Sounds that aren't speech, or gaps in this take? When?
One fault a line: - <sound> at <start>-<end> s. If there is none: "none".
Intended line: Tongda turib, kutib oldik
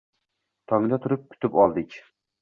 none